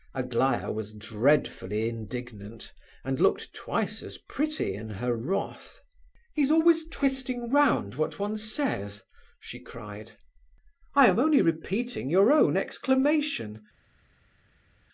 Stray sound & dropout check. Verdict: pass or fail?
pass